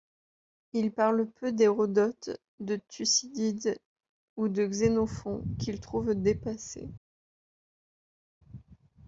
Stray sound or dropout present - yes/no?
no